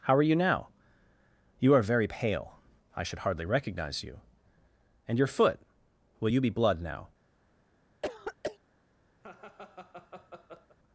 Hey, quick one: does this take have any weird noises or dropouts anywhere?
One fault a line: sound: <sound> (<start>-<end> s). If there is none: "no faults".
sound: throat clearing (8.0-8.6 s)
sound: laugh (9.2-10.8 s)